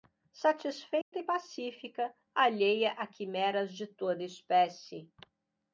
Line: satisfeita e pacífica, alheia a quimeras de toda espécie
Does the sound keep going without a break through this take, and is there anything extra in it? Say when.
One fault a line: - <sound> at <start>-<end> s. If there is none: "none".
- dropout at 1.0-1.1 s